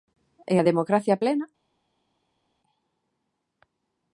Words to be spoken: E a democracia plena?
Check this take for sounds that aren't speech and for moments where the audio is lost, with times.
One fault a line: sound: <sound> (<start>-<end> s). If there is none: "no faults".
no faults